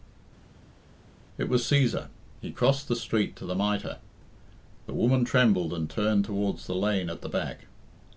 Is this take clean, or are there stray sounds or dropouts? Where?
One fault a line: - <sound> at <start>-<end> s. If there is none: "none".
none